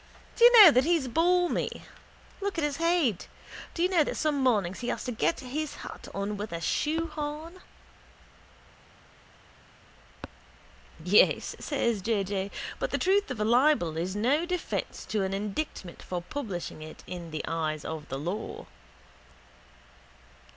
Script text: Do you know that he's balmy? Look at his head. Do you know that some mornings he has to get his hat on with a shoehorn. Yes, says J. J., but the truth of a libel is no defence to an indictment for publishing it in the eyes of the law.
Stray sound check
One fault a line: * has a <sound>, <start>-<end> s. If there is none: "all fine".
all fine